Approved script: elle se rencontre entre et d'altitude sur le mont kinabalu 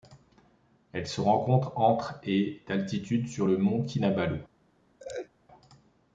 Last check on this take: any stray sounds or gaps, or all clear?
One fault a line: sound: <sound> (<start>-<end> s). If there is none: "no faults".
sound: laugh (5.0-5.3 s)